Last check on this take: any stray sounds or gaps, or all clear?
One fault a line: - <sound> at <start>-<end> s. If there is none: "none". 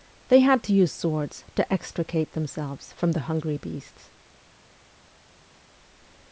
none